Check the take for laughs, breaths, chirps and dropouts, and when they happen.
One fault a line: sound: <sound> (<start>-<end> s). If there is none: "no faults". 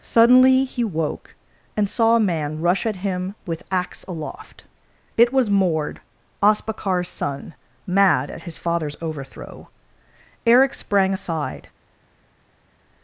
no faults